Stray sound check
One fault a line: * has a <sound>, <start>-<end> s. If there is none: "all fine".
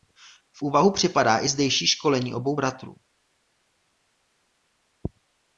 all fine